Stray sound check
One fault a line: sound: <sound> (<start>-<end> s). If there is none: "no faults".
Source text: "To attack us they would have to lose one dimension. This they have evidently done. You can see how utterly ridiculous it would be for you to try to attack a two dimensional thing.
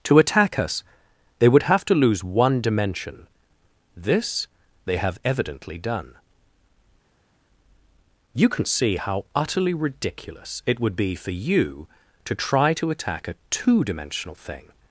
no faults